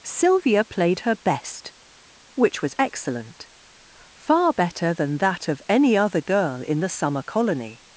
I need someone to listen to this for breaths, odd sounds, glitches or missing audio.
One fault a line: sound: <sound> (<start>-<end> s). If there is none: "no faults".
no faults